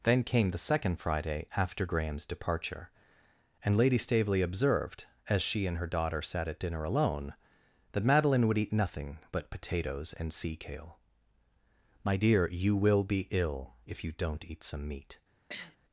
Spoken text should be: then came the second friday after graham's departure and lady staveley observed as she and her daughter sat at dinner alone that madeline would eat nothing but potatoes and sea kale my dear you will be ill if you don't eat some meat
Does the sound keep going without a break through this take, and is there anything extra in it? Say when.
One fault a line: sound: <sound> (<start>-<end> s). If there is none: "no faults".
sound: sniff (15.5-15.8 s)